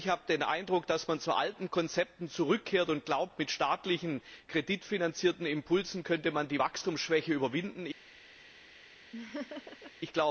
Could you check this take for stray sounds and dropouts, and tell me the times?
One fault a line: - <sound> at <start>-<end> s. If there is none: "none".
- laugh at 9.1-9.9 s